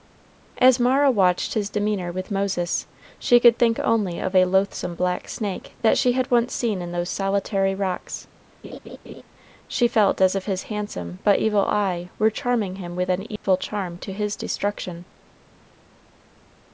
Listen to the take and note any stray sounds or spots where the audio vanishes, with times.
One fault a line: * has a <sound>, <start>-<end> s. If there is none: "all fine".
* has a laugh, 8.6-9.2 s
* has a dropout, 13.4-13.4 s